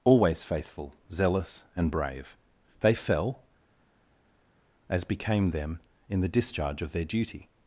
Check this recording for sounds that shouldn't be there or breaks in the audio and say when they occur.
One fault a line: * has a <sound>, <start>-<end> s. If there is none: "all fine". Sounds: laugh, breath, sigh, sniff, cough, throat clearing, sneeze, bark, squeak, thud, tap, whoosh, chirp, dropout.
all fine